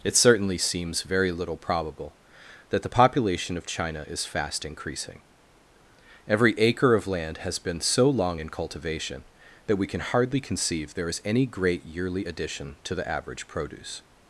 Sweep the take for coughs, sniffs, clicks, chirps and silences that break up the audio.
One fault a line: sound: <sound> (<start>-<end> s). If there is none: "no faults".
no faults